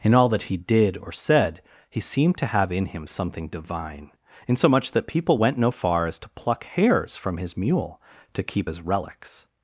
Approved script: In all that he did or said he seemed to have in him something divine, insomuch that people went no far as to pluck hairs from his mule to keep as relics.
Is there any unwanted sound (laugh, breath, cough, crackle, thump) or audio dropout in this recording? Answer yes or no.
no